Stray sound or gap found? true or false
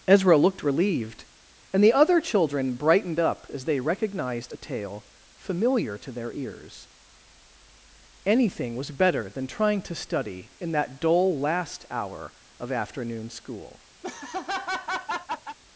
true